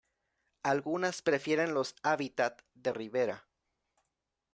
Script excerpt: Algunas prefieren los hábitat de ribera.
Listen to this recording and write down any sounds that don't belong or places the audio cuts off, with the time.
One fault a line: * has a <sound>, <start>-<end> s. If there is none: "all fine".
all fine